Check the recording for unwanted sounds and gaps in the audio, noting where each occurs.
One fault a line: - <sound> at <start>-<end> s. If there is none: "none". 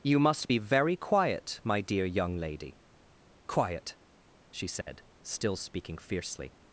- dropout at 4.8-4.9 s